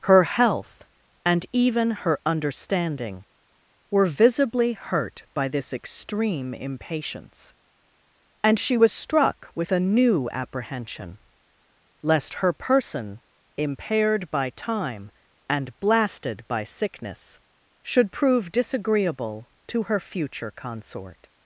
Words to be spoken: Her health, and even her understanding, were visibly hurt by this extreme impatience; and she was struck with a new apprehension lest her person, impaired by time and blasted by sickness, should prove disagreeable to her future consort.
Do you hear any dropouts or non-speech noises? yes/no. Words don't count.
no